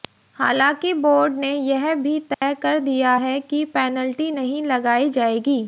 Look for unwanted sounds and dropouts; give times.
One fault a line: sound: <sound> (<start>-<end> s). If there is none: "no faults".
sound: dropout (2.3-2.4 s)